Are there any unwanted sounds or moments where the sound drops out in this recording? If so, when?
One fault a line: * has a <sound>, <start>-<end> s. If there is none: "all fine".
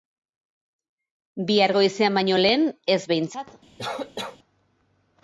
* has a cough, 3.8-4.4 s